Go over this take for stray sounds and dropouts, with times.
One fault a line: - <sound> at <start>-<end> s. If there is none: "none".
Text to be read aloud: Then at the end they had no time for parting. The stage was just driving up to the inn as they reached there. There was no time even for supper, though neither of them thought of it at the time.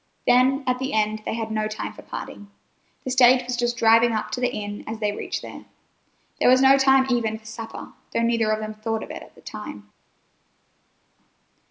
none